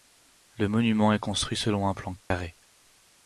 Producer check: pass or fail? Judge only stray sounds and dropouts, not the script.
fail